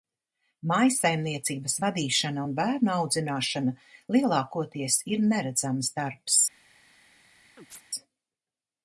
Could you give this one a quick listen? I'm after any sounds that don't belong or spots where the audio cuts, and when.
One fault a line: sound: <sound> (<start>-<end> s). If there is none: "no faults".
sound: chirp (7.6-7.8 s)